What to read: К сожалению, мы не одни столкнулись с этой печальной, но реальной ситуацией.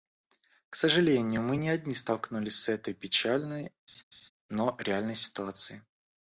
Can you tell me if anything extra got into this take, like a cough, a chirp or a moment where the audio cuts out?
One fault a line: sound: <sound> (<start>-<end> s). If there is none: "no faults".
sound: laugh (3.9-4.3 s)